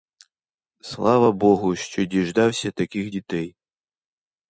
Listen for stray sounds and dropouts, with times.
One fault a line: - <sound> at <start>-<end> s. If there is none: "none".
none